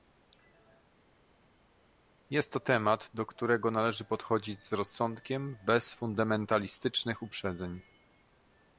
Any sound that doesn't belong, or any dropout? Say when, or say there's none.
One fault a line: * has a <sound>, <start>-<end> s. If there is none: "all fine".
all fine